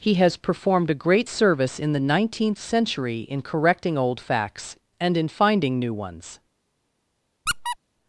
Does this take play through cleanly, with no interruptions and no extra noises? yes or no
no